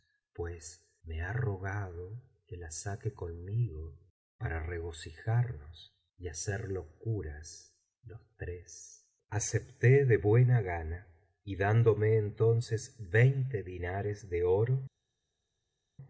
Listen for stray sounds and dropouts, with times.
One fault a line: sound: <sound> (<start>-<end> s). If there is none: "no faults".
no faults